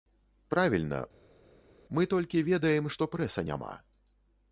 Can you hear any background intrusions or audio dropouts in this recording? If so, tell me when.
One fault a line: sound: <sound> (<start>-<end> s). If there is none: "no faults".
no faults